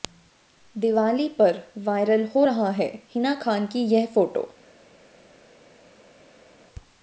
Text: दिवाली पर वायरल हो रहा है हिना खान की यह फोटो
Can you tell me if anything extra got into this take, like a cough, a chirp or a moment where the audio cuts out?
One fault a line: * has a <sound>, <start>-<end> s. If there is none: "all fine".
all fine